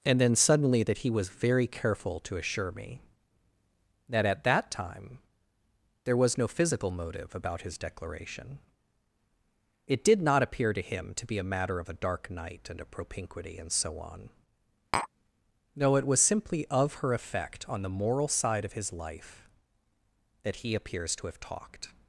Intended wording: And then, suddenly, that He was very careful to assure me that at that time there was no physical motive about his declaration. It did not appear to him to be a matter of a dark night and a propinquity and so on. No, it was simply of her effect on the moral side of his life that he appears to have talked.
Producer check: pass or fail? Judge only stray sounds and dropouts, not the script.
fail